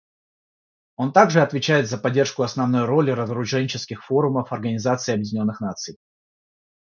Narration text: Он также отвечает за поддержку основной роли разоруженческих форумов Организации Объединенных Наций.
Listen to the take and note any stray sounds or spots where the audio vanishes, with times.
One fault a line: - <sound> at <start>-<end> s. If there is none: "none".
none